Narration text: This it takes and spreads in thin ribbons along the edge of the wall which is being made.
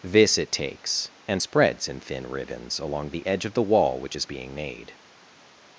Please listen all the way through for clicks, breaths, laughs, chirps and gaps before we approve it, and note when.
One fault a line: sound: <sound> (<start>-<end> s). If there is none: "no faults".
no faults